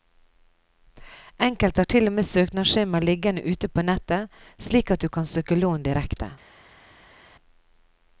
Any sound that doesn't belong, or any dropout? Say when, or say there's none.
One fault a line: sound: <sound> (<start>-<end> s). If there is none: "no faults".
no faults